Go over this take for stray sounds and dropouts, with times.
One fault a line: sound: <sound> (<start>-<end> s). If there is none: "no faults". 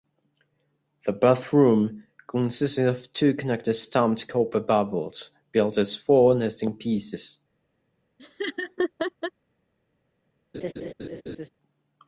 sound: laugh (8.2-9.3 s)
sound: laugh (10.5-11.5 s)